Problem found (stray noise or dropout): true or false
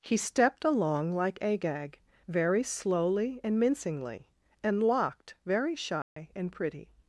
true